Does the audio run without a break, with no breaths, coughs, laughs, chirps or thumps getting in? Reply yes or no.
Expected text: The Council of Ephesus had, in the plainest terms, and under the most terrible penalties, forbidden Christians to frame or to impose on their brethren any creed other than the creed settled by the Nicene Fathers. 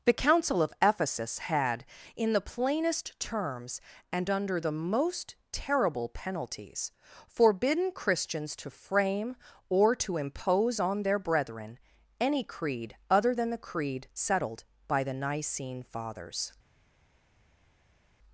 yes